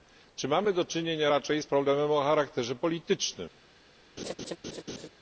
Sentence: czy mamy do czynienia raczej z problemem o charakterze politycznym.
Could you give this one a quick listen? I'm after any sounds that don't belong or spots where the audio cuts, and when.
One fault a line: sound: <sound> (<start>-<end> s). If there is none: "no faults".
sound: laugh (4.2-5.1 s)